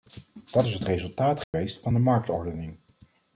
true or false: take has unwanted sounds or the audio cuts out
true